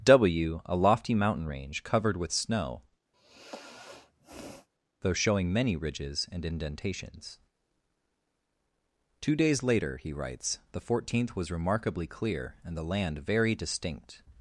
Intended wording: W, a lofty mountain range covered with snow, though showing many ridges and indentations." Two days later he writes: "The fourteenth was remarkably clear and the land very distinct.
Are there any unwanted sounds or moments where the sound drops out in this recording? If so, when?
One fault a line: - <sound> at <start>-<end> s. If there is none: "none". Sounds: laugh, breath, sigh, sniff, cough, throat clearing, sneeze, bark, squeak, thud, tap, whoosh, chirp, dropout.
- sigh at 3.1-4.7 s